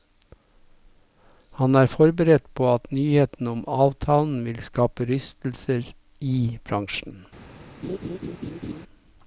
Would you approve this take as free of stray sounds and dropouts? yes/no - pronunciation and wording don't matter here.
no